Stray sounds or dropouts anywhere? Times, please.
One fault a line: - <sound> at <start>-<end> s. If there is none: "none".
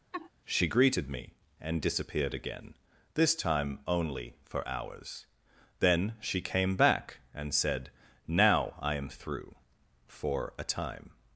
- laugh at 0.1-0.3 s